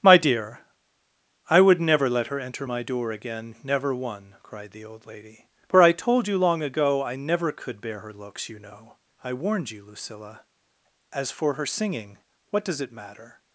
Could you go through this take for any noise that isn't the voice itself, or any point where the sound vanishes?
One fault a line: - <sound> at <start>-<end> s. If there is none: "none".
none